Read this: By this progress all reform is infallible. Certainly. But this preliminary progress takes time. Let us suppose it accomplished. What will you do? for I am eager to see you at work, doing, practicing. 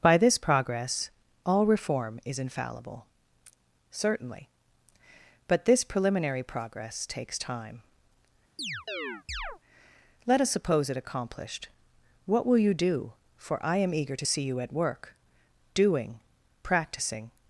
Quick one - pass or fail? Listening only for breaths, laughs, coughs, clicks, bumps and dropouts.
fail